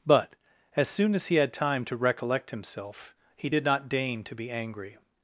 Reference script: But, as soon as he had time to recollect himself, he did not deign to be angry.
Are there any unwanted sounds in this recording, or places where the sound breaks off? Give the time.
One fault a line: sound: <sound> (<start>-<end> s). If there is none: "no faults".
no faults